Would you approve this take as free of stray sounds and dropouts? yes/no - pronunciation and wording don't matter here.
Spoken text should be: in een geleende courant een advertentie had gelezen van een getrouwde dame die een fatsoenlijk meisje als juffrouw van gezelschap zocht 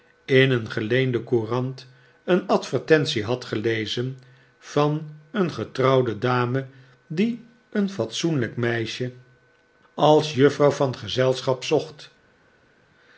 yes